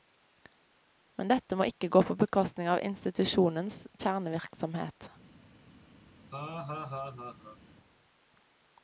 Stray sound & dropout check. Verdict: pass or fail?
fail